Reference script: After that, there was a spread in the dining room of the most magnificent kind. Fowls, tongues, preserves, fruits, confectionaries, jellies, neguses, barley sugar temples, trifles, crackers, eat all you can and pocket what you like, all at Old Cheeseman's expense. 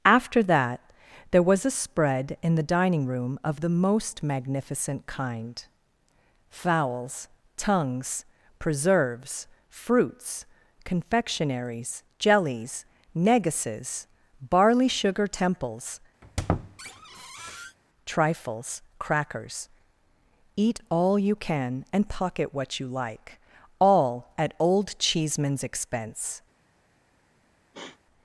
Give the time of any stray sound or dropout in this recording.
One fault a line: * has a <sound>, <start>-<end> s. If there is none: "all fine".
* has a squeak, 16.2-17.8 s
* has a sniff, 27.7-28.0 s